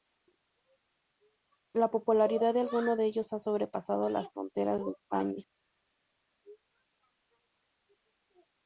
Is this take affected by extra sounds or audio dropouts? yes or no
no